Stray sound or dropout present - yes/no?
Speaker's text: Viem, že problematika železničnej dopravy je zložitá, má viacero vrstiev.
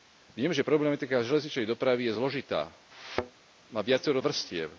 yes